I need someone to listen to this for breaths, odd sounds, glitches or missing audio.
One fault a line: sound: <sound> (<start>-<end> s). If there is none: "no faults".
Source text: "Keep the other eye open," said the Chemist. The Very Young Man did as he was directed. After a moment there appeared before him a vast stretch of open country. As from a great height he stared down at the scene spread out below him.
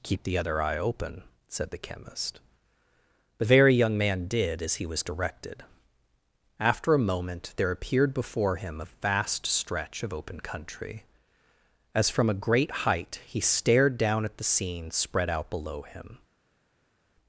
no faults